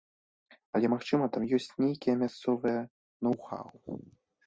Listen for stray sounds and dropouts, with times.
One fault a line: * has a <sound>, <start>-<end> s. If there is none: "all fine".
all fine